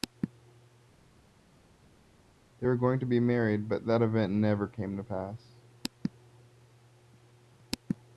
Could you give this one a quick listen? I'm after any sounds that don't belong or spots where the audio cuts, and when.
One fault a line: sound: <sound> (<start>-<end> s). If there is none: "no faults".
no faults